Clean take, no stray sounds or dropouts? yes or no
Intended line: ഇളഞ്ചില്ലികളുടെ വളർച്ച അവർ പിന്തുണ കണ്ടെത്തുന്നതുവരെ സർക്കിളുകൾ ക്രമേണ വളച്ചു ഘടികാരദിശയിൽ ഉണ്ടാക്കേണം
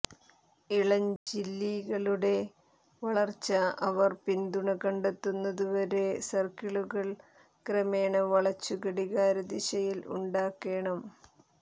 no